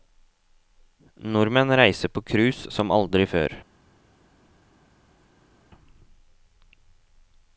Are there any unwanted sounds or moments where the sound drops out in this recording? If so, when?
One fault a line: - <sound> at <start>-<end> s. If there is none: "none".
none